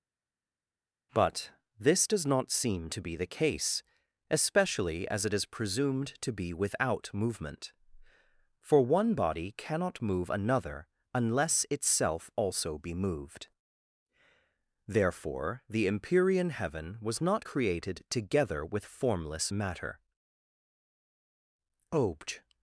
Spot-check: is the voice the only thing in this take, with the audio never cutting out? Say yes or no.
yes